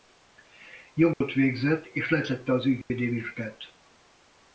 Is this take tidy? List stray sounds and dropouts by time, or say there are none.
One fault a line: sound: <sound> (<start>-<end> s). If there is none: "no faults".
sound: dropout (1.1-1.2 s)
sound: dropout (2.8-2.9 s)